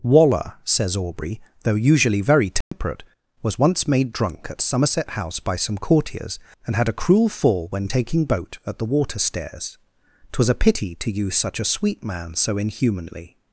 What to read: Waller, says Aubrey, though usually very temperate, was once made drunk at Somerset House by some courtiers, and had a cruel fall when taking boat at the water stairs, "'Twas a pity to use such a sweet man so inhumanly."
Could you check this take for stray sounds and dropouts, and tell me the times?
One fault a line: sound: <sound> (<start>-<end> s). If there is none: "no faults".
sound: dropout (2.6-2.7 s)